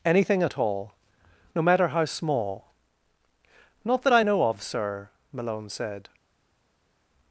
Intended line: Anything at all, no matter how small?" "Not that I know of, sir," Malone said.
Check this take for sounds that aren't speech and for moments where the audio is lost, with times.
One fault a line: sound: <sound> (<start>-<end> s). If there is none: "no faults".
no faults